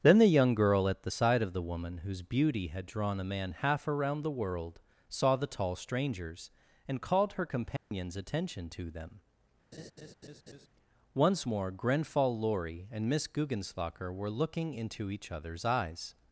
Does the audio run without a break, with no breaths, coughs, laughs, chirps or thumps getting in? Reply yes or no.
no